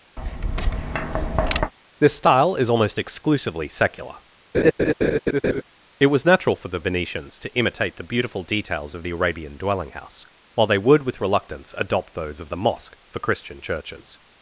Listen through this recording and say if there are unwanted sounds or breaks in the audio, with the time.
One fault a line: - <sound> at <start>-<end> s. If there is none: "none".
- tap at 0.2-1.7 s
- laugh at 4.5-5.6 s